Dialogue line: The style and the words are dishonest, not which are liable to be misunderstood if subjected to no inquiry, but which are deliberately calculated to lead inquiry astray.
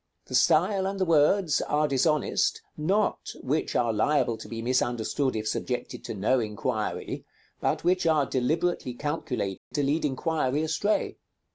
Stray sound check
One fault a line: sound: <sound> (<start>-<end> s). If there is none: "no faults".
sound: dropout (9.6-9.7 s)